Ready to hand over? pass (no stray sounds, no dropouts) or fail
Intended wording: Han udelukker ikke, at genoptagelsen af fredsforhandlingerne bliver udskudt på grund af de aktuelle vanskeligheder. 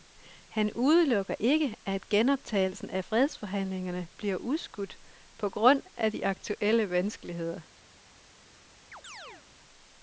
fail